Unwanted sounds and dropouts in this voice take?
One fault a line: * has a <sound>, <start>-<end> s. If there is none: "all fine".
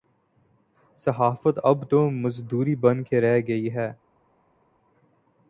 all fine